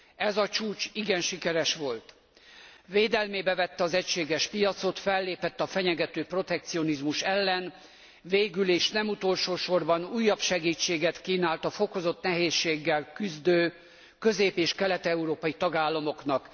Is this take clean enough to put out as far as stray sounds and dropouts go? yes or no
yes